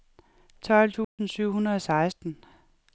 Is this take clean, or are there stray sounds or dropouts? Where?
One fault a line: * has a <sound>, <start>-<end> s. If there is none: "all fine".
* has a dropout, 1.0-1.2 s